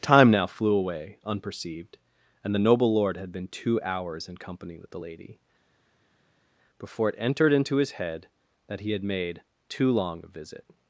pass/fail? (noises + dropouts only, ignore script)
pass